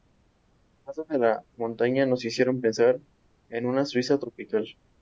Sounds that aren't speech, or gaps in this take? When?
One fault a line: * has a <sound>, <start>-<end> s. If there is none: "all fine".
all fine